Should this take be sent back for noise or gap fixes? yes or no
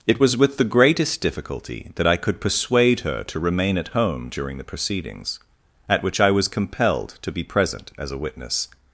no